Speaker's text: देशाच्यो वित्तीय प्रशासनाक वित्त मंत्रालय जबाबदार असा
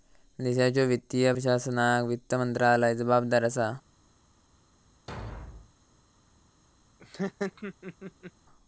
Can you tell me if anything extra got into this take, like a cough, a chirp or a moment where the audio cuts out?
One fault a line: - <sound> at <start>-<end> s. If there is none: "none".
- thud at 5.1-5.7 s
- laugh at 7.0-8.3 s